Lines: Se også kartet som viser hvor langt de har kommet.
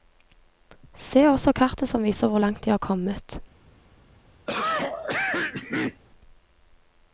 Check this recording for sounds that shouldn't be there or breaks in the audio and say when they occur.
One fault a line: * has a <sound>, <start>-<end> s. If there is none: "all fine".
* has a cough, 4.5-6.0 s